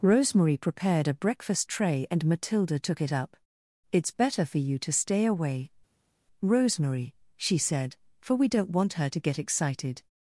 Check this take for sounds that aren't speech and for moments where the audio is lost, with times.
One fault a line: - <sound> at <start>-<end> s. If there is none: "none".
none